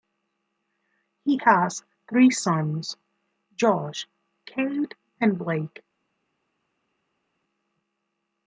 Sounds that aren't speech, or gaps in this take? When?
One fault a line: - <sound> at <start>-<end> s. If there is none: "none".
none